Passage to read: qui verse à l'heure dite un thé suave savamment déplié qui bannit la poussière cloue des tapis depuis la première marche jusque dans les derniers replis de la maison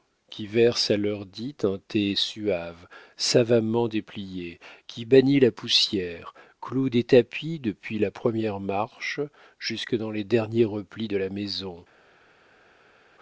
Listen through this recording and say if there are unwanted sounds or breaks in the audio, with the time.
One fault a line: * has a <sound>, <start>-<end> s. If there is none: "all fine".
all fine